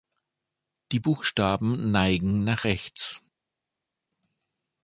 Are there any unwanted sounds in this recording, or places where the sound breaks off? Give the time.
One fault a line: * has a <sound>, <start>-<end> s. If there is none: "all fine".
all fine